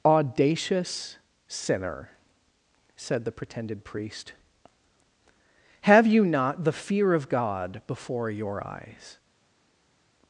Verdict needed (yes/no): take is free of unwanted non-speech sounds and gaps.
yes